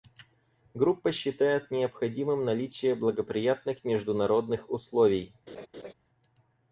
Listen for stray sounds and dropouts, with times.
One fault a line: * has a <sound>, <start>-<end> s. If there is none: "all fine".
* has a laugh, 5.5-5.9 s